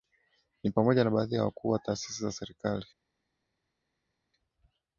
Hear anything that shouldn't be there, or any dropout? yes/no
no